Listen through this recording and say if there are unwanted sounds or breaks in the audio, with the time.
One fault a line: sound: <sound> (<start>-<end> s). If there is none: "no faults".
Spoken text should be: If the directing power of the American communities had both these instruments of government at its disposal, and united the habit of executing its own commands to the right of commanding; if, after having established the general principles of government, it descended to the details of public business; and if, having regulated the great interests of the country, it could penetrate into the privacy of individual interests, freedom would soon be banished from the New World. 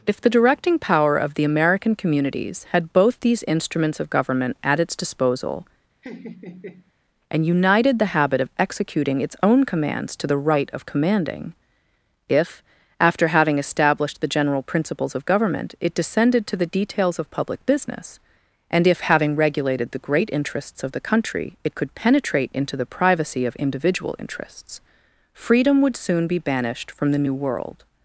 sound: laugh (6.0-6.9 s)